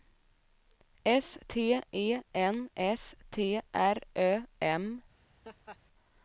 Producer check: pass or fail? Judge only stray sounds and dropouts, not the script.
fail